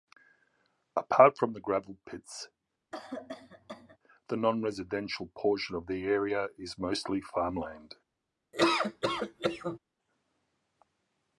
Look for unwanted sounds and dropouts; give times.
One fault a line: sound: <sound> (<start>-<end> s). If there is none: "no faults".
sound: cough (2.9-4.0 s)
sound: laugh (8.5-9.8 s)